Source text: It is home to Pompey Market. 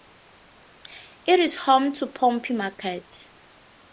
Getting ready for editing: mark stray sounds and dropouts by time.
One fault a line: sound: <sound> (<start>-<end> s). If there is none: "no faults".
no faults